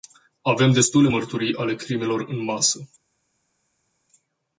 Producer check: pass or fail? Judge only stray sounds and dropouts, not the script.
pass